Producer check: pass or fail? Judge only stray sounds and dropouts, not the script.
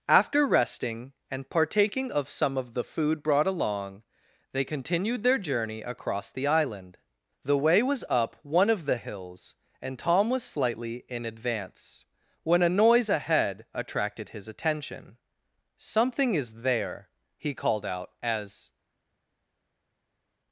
pass